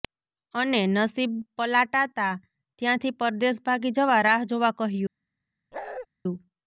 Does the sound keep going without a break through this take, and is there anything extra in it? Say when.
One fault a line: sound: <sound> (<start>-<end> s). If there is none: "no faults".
sound: bark (5.7-6.1 s)